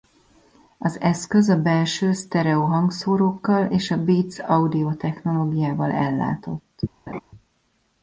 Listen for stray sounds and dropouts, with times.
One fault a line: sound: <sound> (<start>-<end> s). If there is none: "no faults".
sound: laugh (7.1-7.2 s)